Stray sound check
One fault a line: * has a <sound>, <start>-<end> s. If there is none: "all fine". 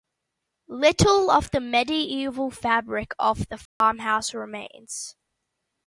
* has a dropout, 3.7-3.8 s